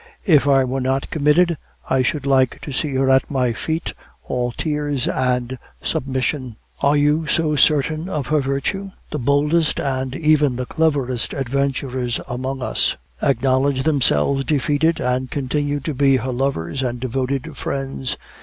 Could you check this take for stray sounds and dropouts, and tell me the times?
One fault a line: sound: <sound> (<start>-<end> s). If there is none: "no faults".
no faults